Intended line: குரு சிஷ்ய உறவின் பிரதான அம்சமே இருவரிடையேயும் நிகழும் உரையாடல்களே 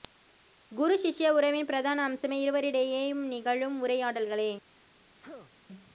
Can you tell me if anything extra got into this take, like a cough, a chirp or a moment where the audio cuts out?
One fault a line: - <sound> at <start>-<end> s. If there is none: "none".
- sneeze at 5.2-5.5 s